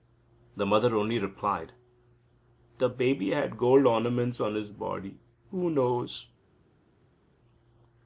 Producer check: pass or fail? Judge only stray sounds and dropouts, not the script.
pass